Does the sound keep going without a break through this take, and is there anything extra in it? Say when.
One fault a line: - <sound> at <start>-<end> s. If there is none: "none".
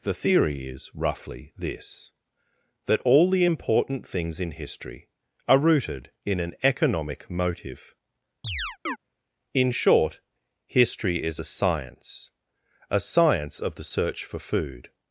- chirp at 8.4-9.0 s